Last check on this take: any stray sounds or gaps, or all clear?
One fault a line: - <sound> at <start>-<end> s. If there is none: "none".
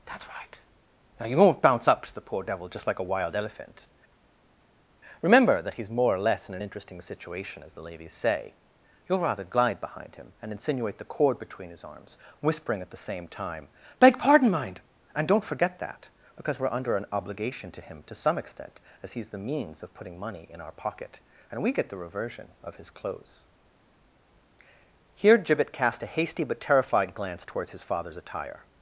none